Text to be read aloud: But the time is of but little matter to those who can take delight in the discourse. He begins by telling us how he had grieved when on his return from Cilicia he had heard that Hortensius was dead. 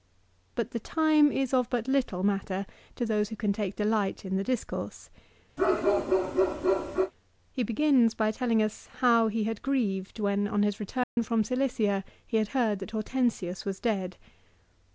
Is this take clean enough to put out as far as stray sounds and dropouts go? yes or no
no